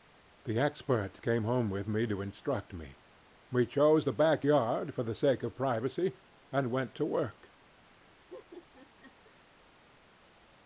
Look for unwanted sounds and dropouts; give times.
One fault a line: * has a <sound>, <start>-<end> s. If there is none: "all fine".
* has a laugh, 8.3-9.4 s